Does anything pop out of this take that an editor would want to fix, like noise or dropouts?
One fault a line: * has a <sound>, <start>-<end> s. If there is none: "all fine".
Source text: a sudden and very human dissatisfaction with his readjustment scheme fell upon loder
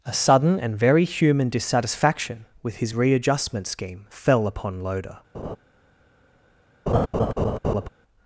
* has a laugh, 5.3-5.6 s
* has a laugh, 6.9-7.9 s